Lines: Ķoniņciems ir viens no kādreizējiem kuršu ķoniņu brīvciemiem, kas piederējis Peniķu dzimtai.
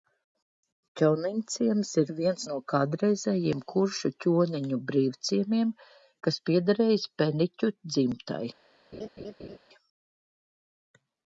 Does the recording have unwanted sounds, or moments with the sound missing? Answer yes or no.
yes